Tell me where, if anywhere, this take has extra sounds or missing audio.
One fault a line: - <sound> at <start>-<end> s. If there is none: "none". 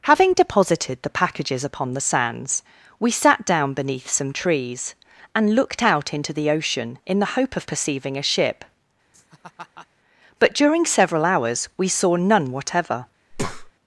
- laugh at 9.1-9.9 s
- breath at 13.3-13.7 s